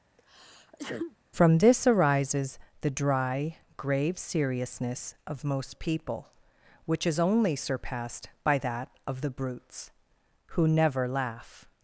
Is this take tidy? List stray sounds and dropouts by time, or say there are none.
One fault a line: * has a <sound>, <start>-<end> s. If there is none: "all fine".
* has a sneeze, 0.2-1.2 s